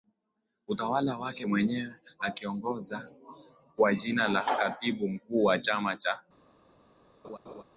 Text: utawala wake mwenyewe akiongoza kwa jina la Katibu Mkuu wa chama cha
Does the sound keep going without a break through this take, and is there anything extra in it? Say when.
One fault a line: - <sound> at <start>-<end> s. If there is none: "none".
- laugh at 7.2-7.6 s